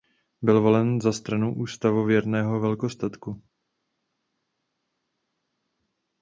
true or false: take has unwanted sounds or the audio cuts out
false